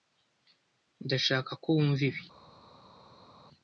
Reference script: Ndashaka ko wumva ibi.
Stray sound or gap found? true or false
false